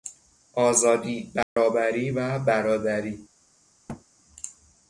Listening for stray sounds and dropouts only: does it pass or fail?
fail